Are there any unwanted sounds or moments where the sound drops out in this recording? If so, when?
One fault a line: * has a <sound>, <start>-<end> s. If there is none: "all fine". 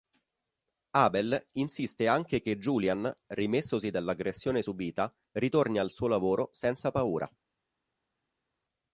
all fine